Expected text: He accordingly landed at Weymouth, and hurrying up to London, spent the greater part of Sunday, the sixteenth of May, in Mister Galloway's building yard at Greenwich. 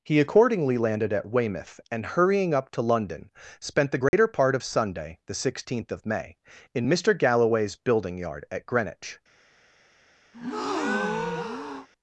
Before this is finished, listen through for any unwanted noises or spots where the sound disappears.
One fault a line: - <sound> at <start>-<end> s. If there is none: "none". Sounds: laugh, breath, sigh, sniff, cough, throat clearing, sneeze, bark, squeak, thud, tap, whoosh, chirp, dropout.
- dropout at 4.1-4.1 s
- breath at 10.3-11.9 s